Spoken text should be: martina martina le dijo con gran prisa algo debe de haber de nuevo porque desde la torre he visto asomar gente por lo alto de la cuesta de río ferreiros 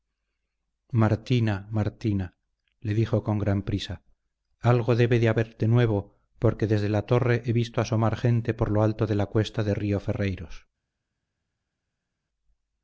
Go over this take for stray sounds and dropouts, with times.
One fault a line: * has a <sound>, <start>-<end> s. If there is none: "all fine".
all fine